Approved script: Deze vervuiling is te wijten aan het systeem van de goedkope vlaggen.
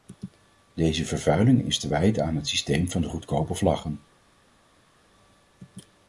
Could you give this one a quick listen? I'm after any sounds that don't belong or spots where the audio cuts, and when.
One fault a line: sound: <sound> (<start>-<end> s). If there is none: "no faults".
no faults